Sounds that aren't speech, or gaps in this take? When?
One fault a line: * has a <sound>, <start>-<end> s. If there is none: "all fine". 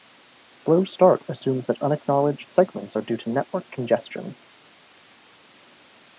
all fine